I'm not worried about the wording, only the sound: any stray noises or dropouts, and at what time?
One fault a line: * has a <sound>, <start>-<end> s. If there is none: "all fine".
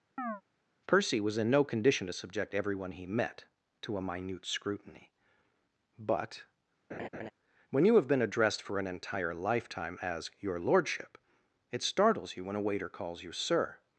* has a chirp, 0.2-0.4 s
* has a laugh, 6.9-7.3 s